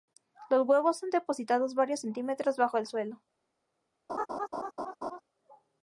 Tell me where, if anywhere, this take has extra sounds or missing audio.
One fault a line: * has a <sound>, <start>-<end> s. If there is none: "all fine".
* has a laugh, 4.1-5.2 s